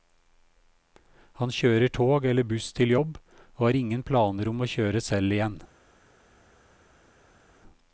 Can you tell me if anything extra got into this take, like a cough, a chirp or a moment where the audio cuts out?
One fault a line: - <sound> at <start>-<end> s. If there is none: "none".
none